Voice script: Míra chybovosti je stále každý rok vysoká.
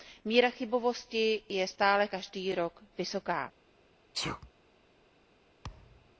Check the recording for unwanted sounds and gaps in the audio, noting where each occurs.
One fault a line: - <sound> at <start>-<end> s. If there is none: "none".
- sneeze at 4.1-4.5 s
- thud at 5.6-6.2 s